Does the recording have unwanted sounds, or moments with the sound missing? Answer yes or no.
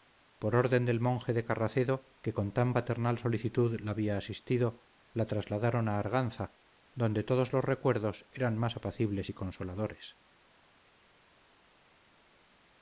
no